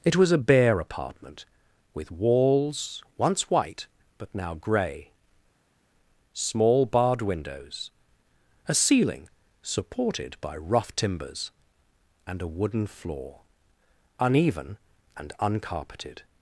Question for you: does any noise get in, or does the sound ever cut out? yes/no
no